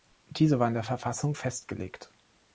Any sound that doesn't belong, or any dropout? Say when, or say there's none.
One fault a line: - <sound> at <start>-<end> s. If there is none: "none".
none